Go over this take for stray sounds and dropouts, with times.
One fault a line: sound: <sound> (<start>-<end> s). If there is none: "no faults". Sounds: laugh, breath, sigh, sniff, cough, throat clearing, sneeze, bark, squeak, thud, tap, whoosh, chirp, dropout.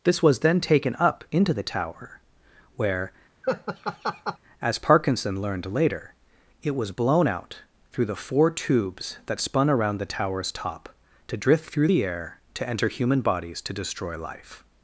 sound: laugh (3.4-4.4 s)